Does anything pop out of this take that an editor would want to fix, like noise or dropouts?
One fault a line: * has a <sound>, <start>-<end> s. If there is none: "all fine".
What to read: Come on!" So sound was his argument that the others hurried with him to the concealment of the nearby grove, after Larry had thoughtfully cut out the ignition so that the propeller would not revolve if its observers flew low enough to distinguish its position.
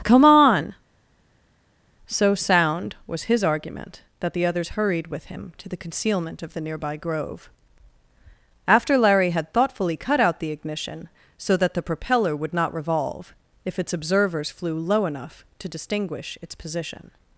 all fine